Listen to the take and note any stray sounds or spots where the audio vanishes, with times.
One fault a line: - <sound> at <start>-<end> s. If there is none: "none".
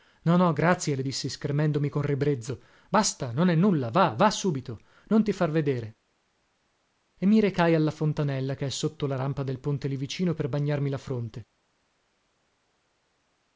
none